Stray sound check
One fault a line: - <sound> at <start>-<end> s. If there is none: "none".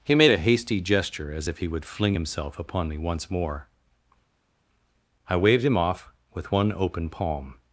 none